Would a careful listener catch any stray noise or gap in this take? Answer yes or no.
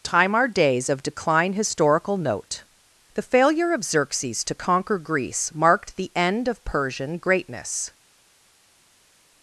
no